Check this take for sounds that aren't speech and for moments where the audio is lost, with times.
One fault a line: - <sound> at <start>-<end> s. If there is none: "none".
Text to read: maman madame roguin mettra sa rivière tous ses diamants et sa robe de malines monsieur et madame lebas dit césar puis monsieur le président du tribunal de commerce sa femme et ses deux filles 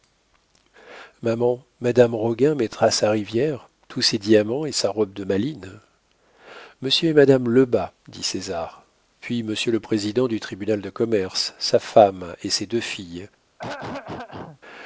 - throat clearing at 13.6-14.6 s